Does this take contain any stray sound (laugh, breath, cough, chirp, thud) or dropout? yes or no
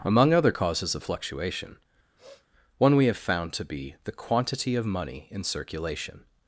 yes